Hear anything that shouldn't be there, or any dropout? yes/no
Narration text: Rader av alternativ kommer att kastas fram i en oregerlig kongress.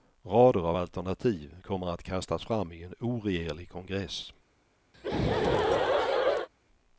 yes